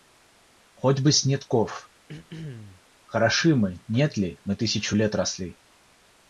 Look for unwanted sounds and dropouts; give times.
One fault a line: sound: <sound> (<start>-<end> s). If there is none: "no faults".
sound: throat clearing (2.1-2.8 s)